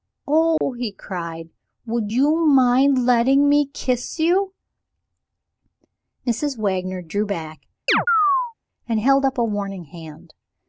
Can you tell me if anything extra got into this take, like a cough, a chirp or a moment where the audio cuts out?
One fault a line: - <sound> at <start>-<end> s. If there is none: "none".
- dropout at 0.6-0.6 s
- chirp at 7.9-8.5 s